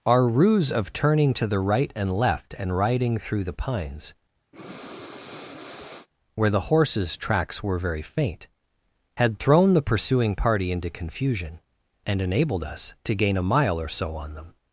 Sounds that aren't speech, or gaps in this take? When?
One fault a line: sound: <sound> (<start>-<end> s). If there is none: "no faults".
sound: breath (4.5-6.1 s)